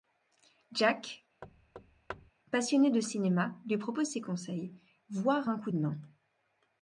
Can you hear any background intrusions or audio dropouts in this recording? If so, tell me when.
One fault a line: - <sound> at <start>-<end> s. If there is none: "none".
- thud at 1.4-2.3 s